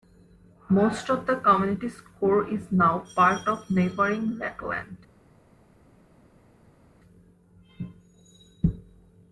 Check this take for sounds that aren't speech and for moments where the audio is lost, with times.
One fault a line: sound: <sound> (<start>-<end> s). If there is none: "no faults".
no faults